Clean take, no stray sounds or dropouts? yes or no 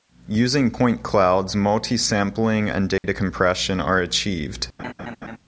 no